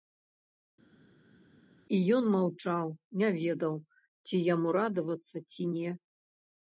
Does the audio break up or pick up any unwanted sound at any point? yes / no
no